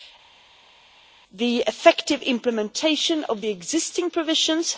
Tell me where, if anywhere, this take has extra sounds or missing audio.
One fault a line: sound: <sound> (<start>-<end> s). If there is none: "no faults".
no faults